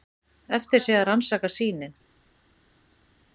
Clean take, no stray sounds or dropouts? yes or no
yes